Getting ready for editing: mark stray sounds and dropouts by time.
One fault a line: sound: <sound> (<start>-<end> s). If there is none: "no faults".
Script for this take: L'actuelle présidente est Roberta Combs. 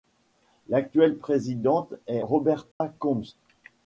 sound: dropout (2.7-2.8 s)